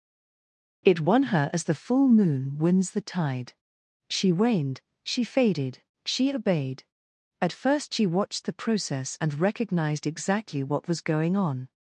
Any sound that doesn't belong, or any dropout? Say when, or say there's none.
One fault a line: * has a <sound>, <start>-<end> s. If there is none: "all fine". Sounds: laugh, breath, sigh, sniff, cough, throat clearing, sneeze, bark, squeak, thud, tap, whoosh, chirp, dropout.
all fine